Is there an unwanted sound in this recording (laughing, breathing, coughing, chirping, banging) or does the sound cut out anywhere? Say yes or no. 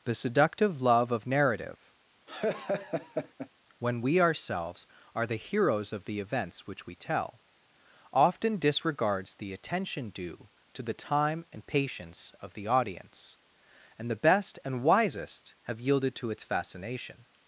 yes